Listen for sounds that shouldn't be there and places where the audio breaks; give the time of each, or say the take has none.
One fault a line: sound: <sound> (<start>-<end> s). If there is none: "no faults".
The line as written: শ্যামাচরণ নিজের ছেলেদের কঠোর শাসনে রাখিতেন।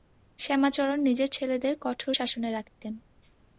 sound: dropout (2.7-2.8 s)